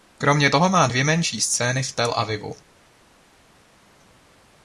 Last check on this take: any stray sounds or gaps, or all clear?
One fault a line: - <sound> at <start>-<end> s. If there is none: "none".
none